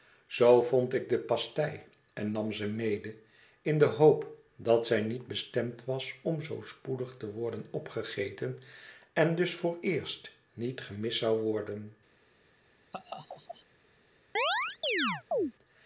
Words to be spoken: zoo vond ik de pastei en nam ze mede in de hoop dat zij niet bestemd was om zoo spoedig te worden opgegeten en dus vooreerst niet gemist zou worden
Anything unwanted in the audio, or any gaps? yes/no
yes